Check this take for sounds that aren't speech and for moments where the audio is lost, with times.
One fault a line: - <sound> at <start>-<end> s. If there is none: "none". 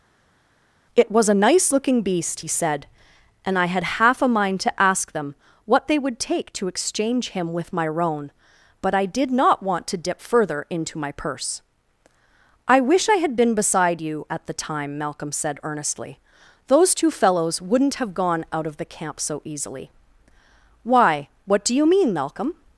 none